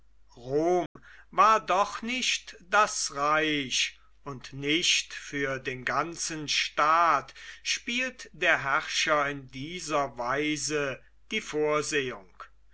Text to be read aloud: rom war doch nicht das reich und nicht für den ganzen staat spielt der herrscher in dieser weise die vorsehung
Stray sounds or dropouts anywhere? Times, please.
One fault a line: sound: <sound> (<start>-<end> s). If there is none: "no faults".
sound: dropout (0.9-1.0 s)